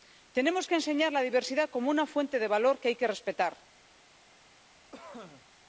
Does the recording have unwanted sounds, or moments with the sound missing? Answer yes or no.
yes